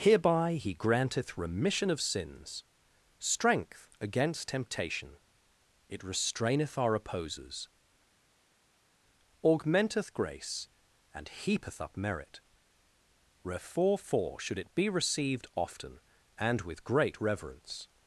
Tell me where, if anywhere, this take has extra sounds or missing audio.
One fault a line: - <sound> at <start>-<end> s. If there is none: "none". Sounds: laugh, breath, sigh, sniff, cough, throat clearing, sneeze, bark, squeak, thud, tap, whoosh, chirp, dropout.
none